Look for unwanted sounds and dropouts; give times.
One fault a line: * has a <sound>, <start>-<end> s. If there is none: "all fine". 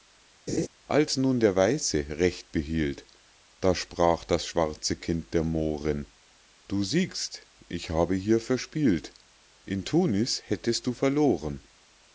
* has a laugh, 0.5-0.7 s